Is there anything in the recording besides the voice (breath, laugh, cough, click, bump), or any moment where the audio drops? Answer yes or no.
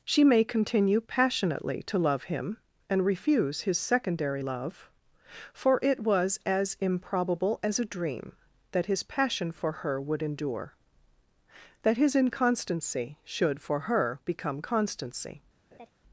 yes